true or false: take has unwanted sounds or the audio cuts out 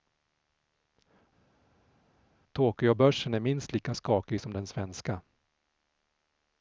false